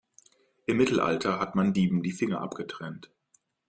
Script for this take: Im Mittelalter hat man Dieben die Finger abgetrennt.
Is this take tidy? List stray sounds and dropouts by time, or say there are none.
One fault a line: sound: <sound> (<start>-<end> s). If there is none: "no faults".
no faults